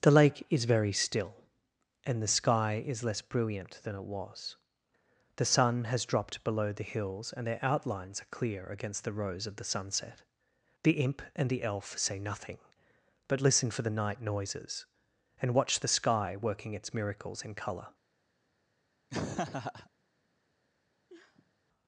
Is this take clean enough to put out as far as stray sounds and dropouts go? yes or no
no